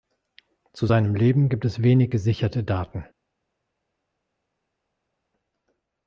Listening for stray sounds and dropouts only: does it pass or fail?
pass